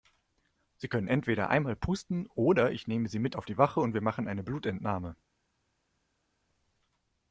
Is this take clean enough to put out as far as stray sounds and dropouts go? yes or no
yes